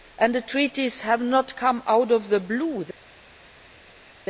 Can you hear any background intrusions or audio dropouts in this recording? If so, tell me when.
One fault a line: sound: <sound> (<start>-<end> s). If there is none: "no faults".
no faults